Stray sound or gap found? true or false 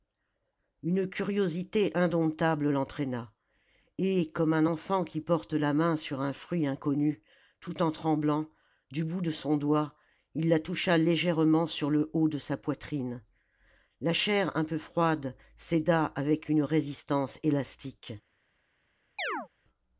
true